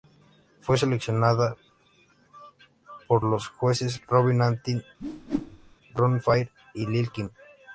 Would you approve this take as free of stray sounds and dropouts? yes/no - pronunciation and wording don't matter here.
no